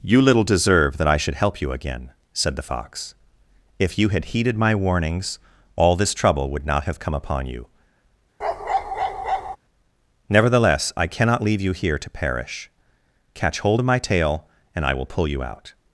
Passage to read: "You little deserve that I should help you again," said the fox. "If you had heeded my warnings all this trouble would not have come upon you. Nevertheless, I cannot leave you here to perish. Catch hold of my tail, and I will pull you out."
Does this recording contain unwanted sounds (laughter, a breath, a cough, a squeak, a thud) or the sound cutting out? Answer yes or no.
yes